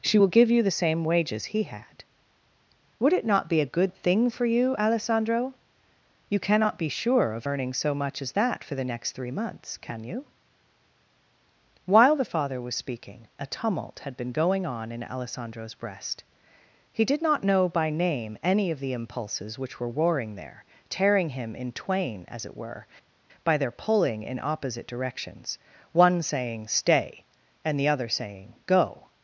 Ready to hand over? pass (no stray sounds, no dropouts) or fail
pass